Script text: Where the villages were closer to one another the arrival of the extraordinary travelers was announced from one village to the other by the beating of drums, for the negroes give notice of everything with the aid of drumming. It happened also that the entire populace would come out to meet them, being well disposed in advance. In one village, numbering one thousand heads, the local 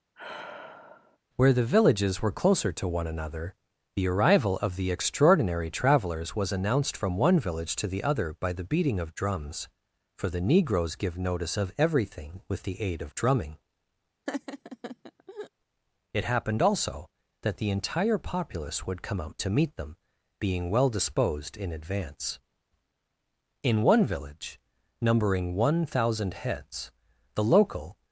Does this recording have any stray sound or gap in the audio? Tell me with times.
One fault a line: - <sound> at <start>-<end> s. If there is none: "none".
- sigh at 0.1-1.2 s
- laugh at 14.3-15.5 s